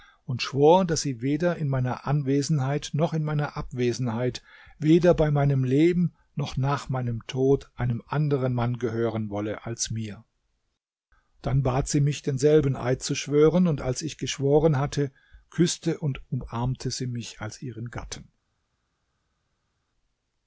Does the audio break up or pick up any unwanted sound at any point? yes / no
no